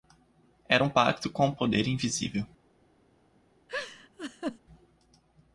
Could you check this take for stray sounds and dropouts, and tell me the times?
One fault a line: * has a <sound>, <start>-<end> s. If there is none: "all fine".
* has a laugh, 3.7-4.6 s